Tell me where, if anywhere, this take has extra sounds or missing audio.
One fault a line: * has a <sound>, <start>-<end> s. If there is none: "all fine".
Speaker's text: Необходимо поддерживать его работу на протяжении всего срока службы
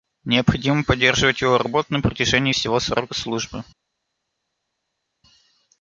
all fine